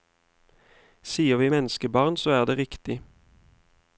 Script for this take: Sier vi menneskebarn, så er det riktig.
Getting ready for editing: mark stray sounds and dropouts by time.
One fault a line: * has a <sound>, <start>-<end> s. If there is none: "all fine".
all fine